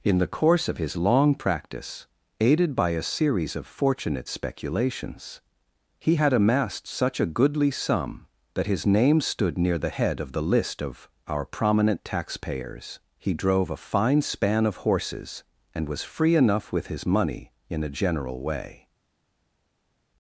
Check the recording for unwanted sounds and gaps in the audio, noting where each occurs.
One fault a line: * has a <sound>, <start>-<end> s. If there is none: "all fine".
all fine